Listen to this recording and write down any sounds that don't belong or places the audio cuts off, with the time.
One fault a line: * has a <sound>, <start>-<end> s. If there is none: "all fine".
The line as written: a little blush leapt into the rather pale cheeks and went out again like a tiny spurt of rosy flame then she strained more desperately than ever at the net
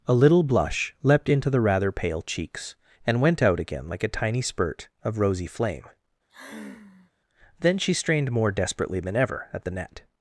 * has a sigh, 6.3-7.1 s